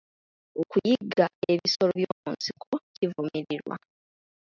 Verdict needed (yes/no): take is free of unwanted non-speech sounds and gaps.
no